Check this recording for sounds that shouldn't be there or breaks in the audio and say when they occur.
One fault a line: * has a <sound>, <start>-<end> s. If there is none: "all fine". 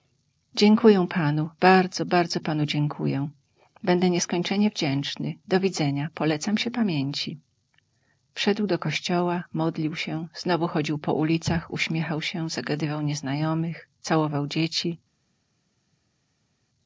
all fine